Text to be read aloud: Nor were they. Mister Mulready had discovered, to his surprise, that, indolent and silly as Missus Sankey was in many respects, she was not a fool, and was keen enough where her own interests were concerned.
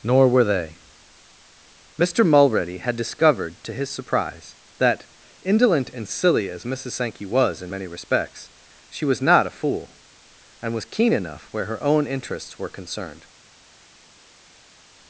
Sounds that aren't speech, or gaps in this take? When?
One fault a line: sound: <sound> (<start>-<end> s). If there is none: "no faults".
no faults